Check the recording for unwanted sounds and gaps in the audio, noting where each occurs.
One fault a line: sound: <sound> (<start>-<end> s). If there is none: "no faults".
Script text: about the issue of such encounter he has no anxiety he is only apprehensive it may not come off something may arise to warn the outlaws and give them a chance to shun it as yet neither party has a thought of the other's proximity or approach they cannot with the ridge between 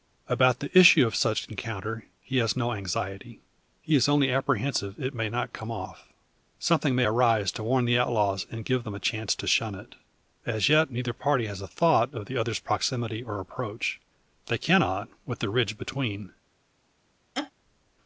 sound: laugh (17.3-17.5 s)